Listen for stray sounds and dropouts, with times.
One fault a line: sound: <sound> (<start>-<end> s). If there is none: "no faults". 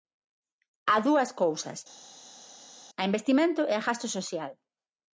no faults